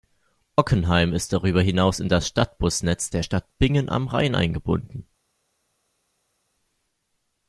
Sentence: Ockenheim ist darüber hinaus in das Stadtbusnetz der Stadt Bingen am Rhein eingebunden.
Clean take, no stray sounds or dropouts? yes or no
yes